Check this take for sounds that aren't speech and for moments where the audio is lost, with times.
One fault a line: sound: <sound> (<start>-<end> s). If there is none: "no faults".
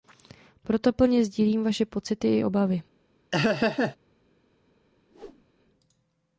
sound: laugh (3.3-4.0 s)
sound: whoosh (5.1-5.4 s)